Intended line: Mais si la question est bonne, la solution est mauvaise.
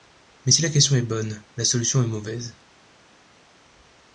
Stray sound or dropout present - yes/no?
no